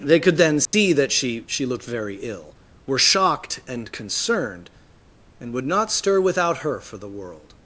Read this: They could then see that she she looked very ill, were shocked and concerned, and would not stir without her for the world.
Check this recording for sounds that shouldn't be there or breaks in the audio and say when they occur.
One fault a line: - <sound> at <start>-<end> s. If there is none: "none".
- dropout at 0.7-0.7 s